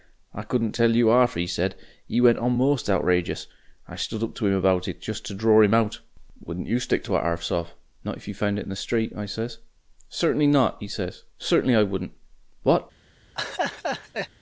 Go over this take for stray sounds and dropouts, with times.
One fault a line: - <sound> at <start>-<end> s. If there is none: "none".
- laugh at 13.4-14.3 s